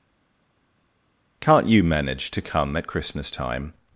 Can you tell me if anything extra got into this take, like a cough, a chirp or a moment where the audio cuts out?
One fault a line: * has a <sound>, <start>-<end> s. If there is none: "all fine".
all fine